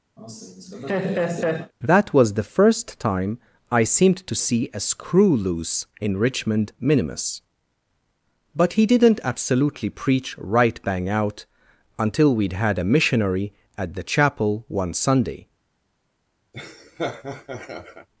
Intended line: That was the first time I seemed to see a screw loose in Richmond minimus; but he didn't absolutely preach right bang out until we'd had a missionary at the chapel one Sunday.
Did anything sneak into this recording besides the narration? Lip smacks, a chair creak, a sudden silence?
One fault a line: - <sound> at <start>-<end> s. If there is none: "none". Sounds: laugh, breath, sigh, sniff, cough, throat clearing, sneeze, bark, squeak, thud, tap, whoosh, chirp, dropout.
- laugh at 0.2-1.7 s
- laugh at 16.5-18.1 s